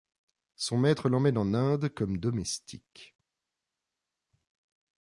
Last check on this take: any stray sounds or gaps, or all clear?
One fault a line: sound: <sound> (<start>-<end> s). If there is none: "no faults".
no faults